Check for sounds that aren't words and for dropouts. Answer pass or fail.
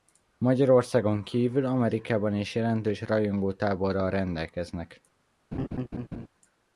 fail